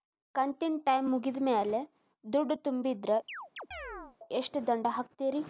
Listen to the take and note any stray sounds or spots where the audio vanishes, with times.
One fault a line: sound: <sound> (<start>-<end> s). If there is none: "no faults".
sound: chirp (3.3-4.2 s)